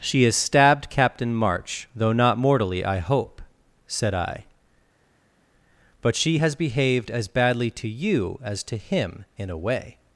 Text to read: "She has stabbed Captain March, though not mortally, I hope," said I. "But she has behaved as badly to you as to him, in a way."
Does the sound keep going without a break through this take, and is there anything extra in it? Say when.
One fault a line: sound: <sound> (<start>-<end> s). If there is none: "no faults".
no faults